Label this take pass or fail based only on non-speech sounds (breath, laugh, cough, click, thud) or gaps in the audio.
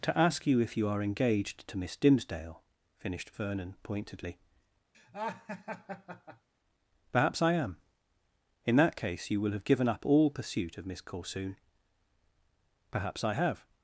fail